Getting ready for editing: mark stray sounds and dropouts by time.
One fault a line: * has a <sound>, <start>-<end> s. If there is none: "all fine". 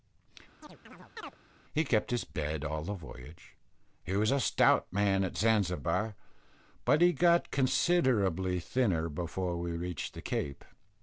* has a chirp, 0.6-1.4 s